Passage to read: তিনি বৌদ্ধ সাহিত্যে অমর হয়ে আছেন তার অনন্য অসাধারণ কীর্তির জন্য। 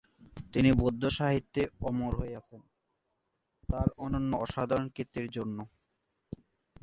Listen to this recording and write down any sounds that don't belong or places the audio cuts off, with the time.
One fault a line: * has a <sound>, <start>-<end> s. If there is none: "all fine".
all fine